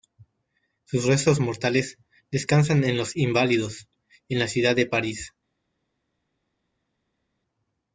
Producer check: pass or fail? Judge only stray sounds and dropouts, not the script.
pass